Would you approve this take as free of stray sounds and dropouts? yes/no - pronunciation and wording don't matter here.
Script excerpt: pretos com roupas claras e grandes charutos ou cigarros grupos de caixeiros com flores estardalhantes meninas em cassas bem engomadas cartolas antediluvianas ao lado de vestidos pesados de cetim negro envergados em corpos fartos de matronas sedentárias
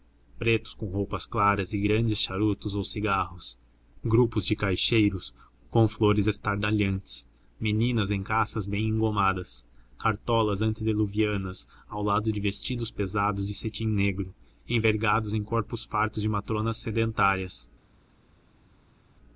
yes